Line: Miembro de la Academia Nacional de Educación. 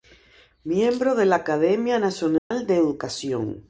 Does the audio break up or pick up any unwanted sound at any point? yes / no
yes